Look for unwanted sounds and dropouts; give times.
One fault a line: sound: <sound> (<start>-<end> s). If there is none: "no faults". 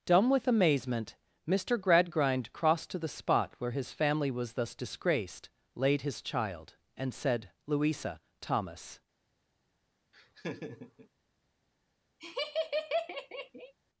sound: laugh (10.1-11.1 s)
sound: laugh (12.2-13.7 s)